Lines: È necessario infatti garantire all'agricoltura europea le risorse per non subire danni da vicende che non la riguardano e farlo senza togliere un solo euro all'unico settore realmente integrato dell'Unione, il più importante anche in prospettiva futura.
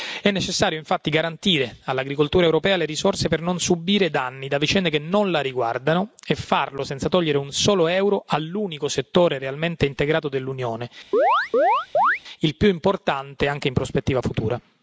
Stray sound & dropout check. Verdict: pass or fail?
fail